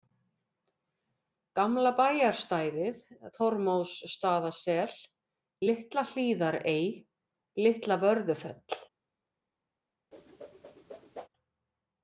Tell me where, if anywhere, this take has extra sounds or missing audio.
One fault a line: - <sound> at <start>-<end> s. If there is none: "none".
- whoosh at 10.1-11.3 s